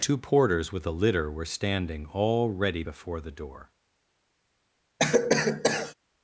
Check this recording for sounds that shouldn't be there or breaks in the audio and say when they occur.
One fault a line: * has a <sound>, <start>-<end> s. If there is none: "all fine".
* has a cough, 5.0-5.9 s